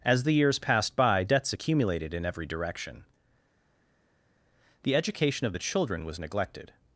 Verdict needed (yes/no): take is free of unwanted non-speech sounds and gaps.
yes